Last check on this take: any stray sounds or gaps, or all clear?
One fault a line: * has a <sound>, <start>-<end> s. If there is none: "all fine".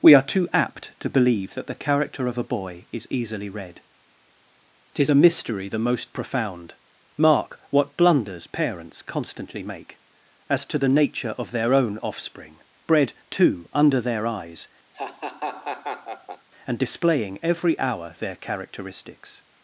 * has a laugh, 14.9-16.5 s